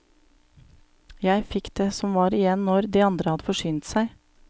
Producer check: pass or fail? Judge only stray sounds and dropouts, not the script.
pass